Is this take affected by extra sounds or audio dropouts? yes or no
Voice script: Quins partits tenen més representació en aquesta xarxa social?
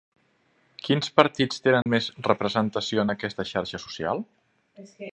yes